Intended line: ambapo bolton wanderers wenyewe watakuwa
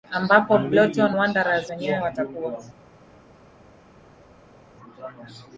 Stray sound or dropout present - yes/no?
no